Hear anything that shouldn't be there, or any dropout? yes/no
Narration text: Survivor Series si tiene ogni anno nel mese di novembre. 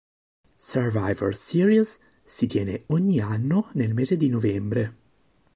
no